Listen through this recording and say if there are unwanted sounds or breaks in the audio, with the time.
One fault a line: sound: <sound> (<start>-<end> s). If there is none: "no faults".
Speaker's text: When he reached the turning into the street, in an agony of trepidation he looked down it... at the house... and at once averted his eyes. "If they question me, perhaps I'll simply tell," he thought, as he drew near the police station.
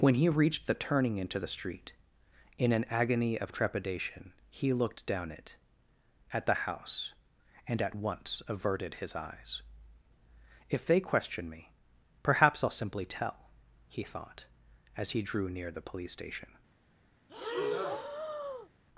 sound: breath (17.3-18.7 s)